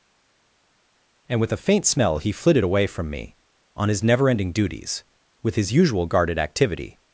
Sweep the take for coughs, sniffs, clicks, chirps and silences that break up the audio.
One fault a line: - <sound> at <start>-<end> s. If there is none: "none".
none